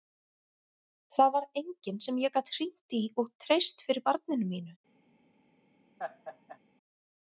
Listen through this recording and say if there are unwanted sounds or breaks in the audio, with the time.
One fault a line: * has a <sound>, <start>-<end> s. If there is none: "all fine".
* has a laugh, 6.0-6.6 s